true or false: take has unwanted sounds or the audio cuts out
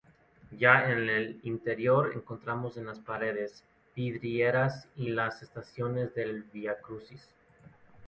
false